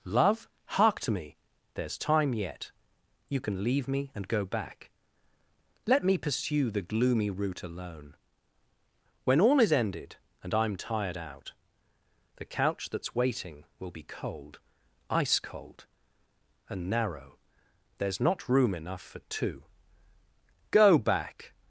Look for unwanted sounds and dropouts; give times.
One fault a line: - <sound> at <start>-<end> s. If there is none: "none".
none